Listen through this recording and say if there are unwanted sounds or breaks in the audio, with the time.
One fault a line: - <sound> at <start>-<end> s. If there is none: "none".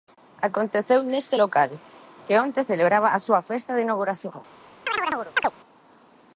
- chirp at 4.9-5.5 s